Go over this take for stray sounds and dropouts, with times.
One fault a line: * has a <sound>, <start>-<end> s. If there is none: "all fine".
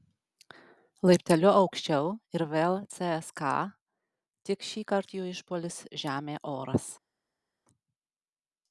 all fine